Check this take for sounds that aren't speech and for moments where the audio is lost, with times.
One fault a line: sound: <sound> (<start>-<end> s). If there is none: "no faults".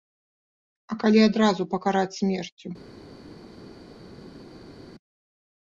no faults